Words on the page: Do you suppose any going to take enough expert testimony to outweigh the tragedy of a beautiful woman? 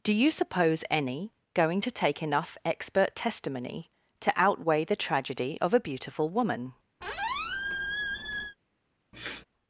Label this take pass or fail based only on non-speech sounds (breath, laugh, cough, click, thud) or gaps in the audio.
fail